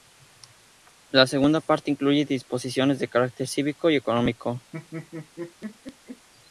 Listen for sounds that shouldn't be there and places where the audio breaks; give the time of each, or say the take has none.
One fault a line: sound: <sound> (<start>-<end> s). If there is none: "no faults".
sound: laugh (4.7-6.3 s)